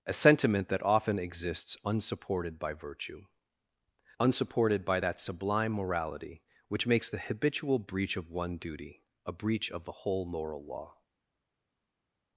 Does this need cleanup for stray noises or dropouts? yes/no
no